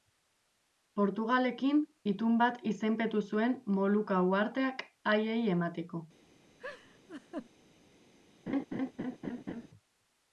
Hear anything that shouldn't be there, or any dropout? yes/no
yes